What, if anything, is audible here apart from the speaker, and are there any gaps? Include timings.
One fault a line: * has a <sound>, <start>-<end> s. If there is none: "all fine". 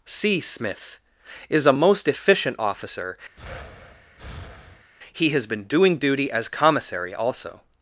* has a breath, 3.4-4.9 s